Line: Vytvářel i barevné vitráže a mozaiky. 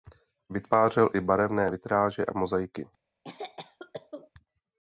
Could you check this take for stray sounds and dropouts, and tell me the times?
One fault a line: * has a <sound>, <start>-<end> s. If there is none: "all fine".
* has a cough, 3.2-4.3 s